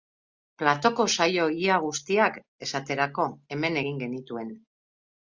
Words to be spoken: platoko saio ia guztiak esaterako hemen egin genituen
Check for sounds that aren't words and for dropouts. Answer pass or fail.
pass